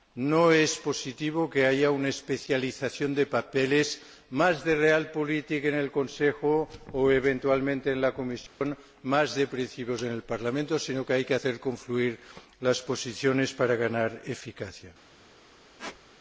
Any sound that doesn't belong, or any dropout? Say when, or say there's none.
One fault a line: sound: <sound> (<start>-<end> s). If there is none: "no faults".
sound: dropout (8.5-8.6 s)
sound: squeak (15.8-16.0 s)